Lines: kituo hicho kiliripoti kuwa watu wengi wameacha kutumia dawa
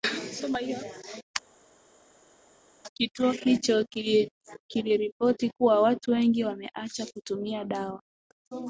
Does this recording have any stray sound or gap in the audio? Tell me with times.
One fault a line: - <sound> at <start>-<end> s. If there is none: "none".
none